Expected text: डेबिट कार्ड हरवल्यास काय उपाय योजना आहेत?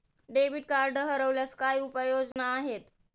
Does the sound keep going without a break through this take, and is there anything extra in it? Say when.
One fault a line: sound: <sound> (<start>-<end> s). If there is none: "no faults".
sound: dropout (2.3-2.4 s)